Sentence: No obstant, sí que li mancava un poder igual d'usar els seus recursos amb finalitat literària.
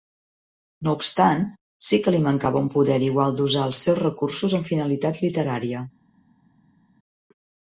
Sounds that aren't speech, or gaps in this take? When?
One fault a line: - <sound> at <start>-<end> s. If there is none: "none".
none